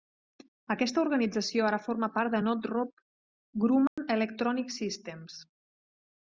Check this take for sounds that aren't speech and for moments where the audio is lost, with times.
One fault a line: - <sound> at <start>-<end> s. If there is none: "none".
- dropout at 3.9-4.0 s